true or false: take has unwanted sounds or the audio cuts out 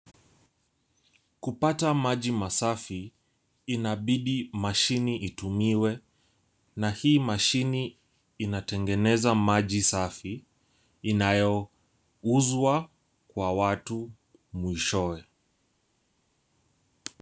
false